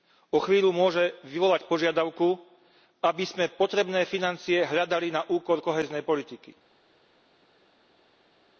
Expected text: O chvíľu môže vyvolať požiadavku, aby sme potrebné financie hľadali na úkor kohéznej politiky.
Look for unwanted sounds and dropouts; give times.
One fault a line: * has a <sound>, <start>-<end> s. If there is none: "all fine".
all fine